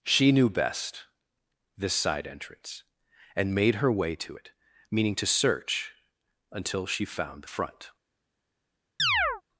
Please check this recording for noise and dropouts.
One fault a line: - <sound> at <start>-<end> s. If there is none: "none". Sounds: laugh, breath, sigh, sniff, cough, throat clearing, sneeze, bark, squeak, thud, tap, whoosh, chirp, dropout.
- chirp at 9.0-9.4 s